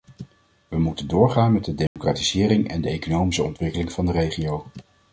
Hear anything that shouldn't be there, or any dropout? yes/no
yes